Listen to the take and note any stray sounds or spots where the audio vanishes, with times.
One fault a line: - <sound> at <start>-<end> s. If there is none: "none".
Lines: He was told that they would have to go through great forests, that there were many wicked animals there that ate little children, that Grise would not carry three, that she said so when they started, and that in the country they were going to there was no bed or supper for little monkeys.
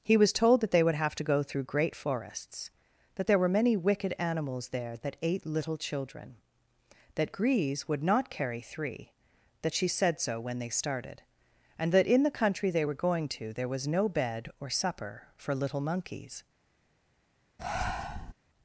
- breath at 17.6-18.3 s